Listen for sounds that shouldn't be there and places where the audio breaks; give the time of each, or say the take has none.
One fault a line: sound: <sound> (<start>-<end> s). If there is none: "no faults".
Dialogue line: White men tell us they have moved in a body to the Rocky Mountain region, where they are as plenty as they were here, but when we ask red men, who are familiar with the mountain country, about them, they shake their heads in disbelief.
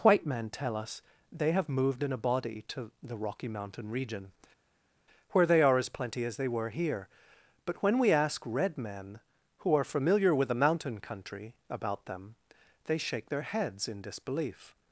no faults